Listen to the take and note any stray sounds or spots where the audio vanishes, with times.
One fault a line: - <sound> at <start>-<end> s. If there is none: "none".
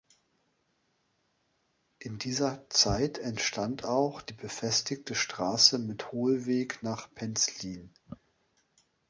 none